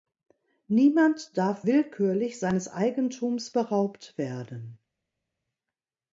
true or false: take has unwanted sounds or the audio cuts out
false